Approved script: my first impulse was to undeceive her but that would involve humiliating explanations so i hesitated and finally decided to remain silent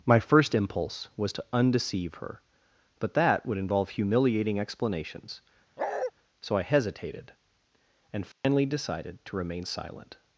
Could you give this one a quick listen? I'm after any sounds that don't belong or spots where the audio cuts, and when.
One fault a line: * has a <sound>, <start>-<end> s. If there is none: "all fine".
* has a bark, 5.8-6.1 s
* has a dropout, 8.3-8.4 s